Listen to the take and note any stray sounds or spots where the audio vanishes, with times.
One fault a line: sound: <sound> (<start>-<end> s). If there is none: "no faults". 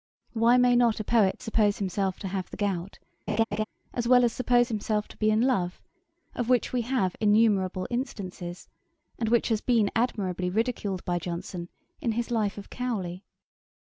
sound: laugh (3.3-3.6 s)